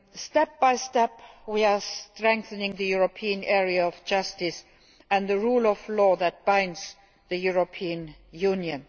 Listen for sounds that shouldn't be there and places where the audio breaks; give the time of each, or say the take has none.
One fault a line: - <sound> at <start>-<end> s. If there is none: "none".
none